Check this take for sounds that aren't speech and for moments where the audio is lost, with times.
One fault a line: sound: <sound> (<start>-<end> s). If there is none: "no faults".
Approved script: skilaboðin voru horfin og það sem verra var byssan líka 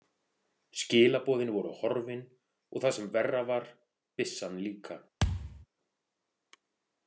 sound: thud (5.2-5.7 s)